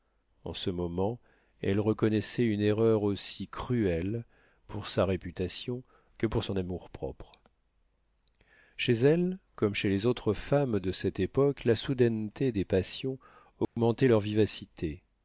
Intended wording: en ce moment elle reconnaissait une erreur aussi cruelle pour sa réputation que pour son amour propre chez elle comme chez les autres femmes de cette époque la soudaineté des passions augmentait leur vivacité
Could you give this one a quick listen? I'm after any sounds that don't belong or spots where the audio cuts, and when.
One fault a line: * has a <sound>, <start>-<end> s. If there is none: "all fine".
* has a dropout, 13.6-13.8 s